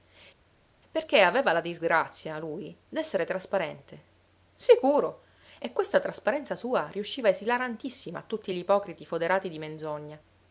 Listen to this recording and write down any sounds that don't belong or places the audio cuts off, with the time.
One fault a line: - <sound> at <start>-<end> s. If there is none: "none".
none